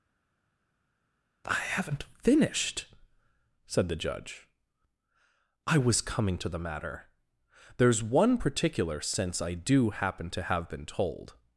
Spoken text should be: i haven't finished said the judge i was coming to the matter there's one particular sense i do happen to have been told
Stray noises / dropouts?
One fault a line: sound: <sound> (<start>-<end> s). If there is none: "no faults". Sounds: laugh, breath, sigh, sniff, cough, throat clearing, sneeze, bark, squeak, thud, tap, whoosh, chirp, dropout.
no faults